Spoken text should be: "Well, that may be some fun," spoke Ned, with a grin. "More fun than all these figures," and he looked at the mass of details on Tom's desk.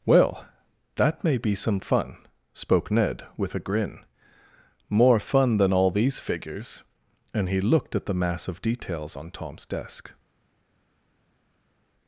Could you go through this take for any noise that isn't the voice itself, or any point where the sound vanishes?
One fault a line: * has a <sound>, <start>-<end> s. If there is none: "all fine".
all fine